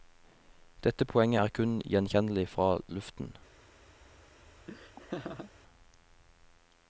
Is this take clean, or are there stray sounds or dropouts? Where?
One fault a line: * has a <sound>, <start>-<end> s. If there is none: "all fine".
* has a laugh, 4.7-5.5 s